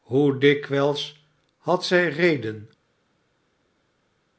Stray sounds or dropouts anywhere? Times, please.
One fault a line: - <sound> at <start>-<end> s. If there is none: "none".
none